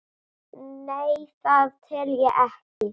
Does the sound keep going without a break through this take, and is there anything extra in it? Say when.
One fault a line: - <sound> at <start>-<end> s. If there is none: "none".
- dropout at 2.7-2.8 s